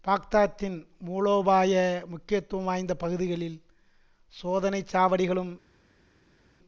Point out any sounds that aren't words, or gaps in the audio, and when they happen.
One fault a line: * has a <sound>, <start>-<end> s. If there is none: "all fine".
all fine